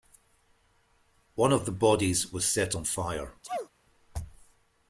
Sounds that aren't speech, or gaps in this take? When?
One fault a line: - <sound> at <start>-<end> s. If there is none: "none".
- sneeze at 3.4-3.7 s